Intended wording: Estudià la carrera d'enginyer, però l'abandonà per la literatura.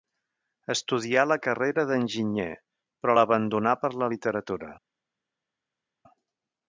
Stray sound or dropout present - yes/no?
no